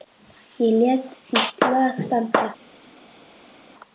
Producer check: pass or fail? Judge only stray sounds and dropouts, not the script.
pass